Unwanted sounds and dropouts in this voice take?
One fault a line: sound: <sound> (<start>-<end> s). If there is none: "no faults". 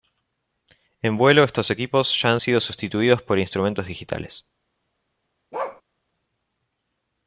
sound: bark (5.5-5.8 s)